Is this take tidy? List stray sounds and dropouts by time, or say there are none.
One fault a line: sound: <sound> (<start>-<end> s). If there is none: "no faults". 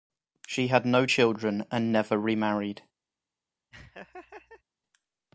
sound: laugh (3.7-4.6 s)